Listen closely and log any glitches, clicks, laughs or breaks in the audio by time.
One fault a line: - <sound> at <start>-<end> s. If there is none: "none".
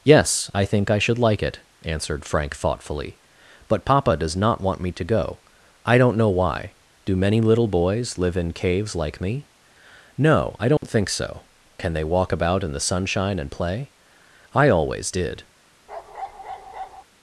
- dropout at 10.8-10.8 s
- bark at 15.9-17.0 s